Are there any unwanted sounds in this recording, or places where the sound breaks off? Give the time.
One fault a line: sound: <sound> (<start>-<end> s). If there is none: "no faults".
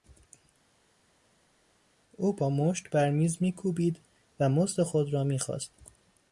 no faults